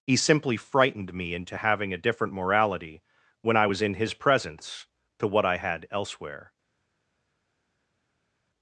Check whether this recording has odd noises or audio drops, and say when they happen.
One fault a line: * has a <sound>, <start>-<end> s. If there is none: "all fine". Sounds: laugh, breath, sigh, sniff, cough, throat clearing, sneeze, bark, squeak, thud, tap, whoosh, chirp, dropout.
all fine